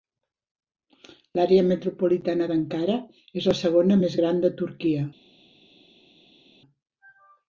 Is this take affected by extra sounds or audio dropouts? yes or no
no